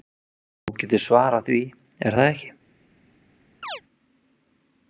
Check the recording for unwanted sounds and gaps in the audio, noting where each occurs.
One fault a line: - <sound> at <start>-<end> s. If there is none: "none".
- chirp at 3.6-3.8 s